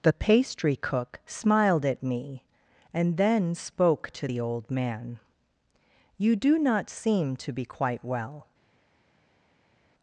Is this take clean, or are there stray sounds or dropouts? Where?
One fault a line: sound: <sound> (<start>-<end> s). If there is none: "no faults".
no faults